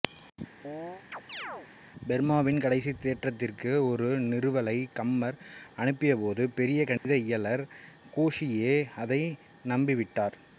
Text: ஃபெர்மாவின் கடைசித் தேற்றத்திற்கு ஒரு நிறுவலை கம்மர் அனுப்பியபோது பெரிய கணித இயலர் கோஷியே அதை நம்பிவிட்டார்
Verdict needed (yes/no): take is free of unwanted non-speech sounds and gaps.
no